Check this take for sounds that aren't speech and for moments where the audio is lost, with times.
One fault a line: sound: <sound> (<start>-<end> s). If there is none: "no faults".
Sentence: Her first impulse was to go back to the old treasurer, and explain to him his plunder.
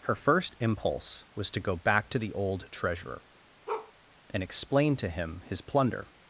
sound: bark (3.7-3.9 s)